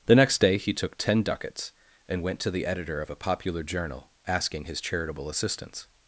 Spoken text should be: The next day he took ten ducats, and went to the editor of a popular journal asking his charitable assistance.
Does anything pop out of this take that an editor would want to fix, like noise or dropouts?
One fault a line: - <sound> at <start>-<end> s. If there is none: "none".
none